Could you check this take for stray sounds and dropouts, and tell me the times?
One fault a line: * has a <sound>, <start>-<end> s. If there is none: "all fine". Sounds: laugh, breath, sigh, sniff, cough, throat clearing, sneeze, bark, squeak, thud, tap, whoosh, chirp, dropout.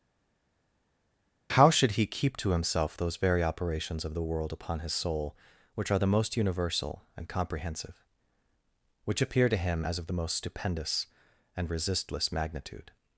all fine